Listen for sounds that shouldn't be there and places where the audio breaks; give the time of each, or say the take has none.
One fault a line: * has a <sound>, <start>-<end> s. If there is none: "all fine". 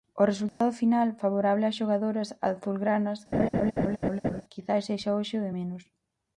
* has a dropout, 0.5-0.6 s
* has a laugh, 3.3-4.4 s